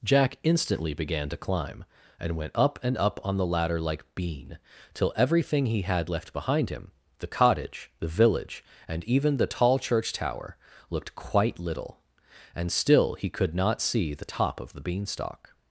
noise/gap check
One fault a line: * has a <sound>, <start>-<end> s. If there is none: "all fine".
all fine